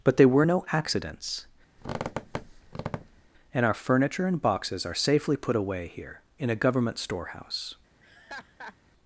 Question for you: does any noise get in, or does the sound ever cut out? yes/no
yes